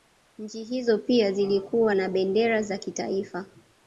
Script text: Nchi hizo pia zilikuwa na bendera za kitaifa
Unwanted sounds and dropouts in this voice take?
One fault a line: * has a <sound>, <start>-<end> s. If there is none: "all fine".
all fine